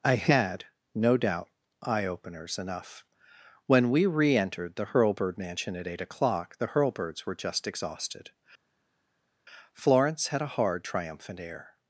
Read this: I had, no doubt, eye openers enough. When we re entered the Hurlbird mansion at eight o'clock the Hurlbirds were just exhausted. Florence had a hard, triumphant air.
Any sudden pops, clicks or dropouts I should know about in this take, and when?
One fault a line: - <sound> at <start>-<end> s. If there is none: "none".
none